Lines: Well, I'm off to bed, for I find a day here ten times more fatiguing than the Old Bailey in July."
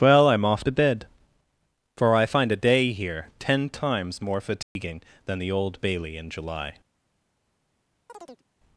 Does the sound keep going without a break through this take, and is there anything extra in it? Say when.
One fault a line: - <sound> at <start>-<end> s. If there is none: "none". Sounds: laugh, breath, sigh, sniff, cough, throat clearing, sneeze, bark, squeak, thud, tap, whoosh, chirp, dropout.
- dropout at 4.6-4.8 s
- chirp at 8.1-8.4 s